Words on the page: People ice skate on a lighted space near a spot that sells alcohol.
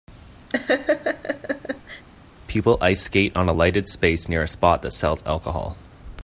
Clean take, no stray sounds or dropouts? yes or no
no